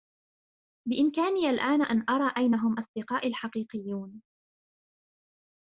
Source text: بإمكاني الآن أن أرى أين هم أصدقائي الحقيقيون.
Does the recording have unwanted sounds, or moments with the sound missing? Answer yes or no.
no